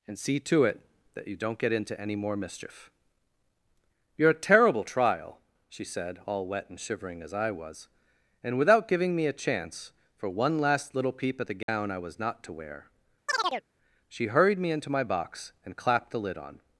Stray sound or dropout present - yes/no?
yes